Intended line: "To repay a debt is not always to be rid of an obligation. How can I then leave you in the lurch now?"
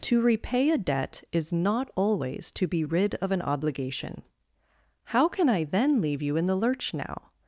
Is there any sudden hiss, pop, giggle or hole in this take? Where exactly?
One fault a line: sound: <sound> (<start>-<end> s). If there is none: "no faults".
no faults